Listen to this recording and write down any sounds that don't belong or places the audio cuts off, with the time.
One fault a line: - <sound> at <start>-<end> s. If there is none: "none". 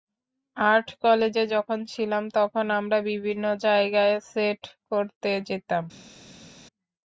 none